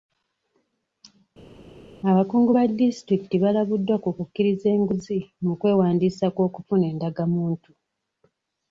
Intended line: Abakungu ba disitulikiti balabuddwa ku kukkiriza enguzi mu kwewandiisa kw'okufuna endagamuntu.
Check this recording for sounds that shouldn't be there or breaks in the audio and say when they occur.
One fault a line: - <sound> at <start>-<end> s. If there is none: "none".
none